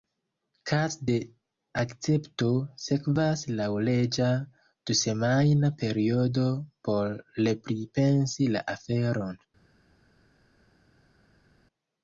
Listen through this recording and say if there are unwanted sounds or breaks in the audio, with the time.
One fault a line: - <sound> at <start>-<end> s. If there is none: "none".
none